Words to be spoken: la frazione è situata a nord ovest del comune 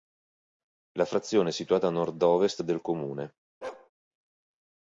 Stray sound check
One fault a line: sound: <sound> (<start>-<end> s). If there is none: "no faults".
sound: bark (3.6-3.9 s)